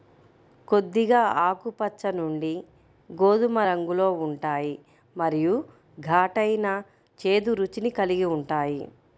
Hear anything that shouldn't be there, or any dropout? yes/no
no